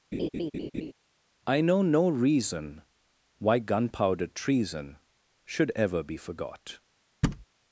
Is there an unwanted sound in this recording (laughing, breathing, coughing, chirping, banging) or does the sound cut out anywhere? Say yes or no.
yes